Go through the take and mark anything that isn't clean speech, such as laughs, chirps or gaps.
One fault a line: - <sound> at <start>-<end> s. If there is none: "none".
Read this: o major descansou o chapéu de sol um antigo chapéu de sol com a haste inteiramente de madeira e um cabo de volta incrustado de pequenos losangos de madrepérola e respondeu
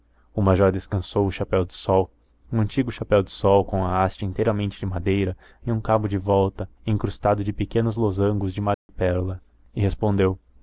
- dropout at 8.7-8.9 s